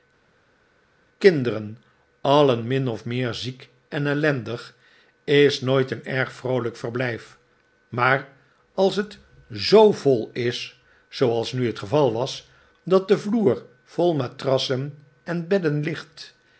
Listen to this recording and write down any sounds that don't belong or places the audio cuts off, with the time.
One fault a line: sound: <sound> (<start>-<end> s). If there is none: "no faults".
no faults